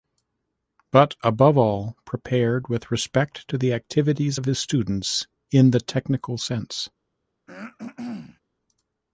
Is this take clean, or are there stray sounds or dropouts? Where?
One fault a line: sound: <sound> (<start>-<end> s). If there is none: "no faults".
sound: throat clearing (7.5-8.4 s)